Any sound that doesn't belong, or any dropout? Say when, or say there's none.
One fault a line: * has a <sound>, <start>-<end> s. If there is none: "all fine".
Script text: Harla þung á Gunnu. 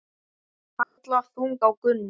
* has a dropout, 0.8-1.0 s